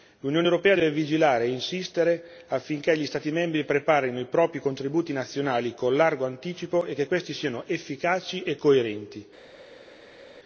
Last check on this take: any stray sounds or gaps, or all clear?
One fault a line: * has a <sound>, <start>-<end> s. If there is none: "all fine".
all fine